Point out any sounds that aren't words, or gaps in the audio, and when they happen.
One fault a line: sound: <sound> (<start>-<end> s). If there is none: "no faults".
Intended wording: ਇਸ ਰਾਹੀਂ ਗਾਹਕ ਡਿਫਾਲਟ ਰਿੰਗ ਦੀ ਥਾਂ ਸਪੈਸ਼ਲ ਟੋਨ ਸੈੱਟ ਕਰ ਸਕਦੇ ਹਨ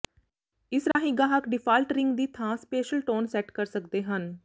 sound: dropout (0.9-1.0 s)